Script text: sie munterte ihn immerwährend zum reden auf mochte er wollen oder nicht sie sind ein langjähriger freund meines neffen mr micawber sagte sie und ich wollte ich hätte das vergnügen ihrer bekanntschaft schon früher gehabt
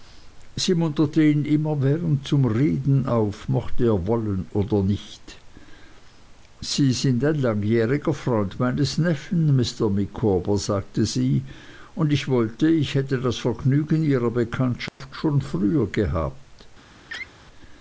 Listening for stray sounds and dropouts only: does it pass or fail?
fail